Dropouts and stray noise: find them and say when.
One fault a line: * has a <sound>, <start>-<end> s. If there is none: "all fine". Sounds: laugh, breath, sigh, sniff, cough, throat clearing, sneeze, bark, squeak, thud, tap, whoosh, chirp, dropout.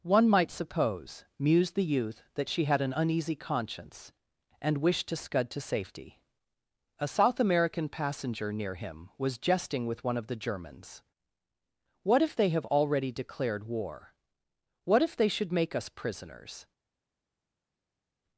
all fine